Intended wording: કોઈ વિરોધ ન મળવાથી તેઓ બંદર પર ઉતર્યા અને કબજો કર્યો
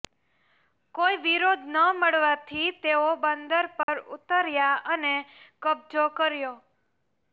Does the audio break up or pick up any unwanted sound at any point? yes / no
yes